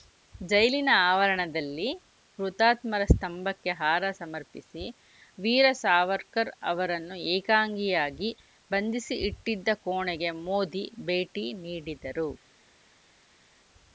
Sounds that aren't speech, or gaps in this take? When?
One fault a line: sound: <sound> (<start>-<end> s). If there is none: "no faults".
no faults